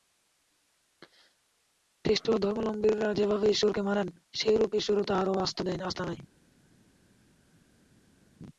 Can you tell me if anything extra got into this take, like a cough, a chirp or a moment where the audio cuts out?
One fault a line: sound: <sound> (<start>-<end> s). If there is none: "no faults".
no faults